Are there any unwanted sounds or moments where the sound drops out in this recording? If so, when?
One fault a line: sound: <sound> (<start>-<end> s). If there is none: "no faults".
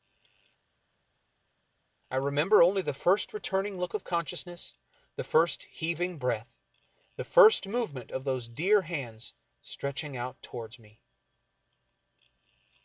no faults